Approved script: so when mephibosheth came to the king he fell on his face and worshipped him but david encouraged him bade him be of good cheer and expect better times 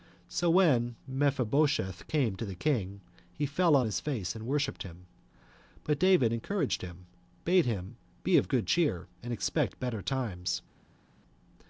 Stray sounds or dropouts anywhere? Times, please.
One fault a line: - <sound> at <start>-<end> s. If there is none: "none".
none